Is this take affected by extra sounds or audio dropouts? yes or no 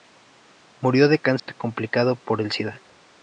yes